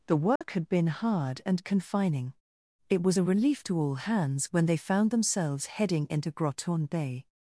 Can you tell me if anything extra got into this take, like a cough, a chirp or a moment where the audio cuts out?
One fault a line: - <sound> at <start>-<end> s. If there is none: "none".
- dropout at 0.4-0.4 s